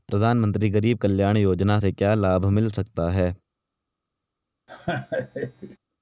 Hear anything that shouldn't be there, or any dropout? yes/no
yes